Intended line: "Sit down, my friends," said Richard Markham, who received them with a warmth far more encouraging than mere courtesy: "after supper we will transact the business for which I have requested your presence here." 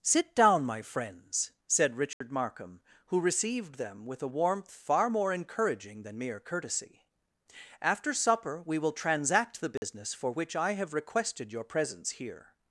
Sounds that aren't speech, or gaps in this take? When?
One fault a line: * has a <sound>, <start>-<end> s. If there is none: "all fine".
* has a dropout, 2.1-2.2 s
* has a dropout, 9.8-9.8 s